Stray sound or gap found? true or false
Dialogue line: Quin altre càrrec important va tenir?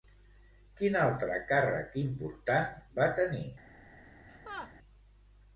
true